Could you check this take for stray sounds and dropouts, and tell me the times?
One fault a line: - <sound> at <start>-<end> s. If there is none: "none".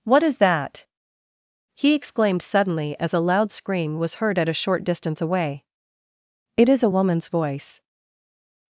none